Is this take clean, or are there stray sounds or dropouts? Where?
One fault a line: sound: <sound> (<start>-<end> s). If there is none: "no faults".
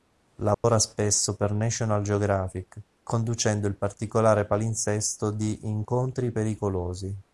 sound: dropout (0.5-0.6 s)